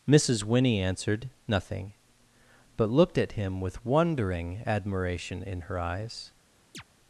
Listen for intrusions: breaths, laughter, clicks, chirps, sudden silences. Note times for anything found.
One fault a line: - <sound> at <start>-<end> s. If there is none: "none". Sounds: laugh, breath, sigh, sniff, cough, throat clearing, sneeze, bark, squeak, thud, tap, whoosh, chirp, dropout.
- chirp at 6.7-6.8 s